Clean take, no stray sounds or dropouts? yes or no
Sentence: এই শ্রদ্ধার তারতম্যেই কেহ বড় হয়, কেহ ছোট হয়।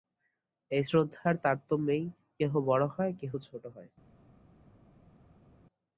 yes